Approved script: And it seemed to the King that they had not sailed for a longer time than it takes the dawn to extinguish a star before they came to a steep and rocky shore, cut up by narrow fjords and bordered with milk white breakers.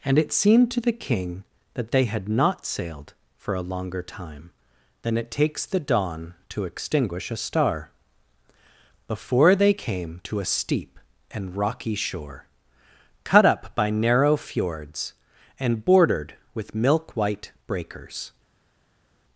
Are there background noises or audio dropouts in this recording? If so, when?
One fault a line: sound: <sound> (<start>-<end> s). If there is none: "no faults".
no faults